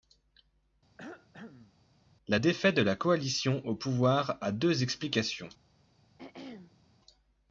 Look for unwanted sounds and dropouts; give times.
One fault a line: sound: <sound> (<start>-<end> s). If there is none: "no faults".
sound: cough (1.0-1.8 s)
sound: throat clearing (6.2-6.9 s)